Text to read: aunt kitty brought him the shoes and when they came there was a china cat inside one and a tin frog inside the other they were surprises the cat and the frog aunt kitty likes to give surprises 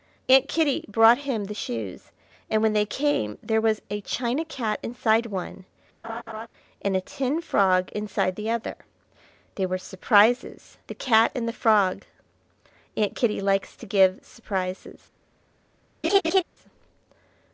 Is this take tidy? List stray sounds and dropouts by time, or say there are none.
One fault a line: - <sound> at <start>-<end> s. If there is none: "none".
- laugh at 6.0-6.5 s
- laugh at 16.0-16.4 s